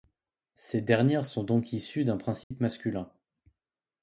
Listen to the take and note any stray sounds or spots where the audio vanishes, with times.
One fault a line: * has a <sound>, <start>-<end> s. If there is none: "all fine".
* has a dropout, 2.4-2.5 s